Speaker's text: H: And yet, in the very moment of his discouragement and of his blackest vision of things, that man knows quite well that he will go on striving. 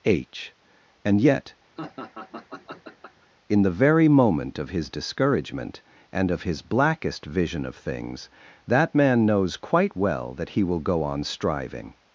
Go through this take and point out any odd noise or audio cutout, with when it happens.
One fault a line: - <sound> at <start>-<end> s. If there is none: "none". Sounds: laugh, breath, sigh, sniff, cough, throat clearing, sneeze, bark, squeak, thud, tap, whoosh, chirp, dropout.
- laugh at 1.8-3.3 s